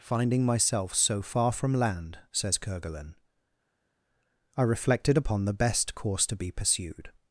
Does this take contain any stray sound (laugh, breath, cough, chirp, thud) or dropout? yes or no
no